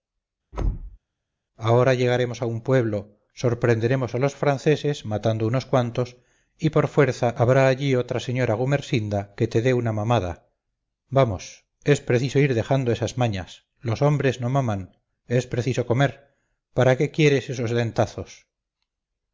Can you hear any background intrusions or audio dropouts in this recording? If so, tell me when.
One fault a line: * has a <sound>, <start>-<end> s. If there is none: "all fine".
* has a thud, 0.5-1.0 s